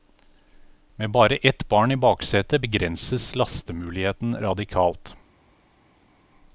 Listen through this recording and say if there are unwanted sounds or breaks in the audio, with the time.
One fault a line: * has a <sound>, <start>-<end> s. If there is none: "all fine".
all fine